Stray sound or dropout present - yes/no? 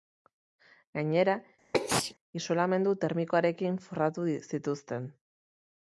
yes